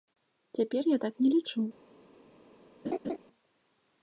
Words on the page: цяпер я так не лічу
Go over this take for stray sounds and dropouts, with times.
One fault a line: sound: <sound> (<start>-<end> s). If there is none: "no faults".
sound: laugh (2.8-3.2 s)